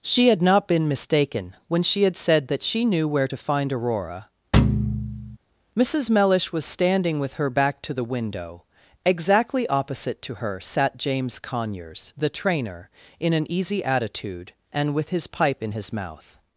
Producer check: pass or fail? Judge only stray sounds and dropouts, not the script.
fail